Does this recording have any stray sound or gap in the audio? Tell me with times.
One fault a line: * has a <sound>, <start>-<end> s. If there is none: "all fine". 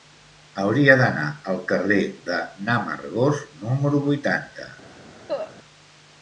* has a cough, 5.3-5.6 s